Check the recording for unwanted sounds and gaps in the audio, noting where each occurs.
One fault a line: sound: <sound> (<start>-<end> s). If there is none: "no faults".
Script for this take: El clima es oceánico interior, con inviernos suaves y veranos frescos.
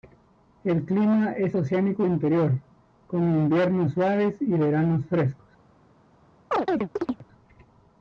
sound: chirp (6.5-7.2 s)